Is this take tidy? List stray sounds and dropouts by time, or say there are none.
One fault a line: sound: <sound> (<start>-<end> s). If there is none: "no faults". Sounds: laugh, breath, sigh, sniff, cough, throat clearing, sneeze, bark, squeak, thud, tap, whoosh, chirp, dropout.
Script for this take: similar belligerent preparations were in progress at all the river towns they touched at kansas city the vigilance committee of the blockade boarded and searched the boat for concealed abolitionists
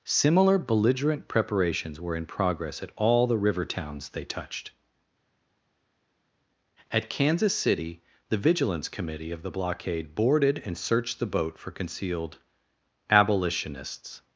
no faults